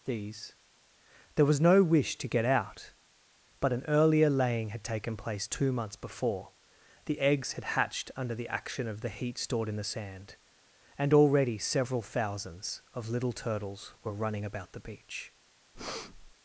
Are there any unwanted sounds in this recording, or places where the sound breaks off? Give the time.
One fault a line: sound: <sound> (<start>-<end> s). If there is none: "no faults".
sound: breath (15.7-16.3 s)